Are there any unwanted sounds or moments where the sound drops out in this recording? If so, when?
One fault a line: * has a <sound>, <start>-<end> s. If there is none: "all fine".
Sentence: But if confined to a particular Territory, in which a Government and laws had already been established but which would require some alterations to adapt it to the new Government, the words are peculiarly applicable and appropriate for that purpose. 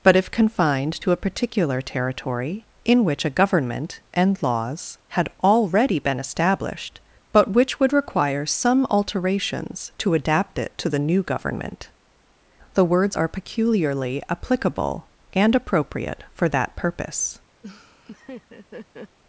* has a laugh, 17.6-19.2 s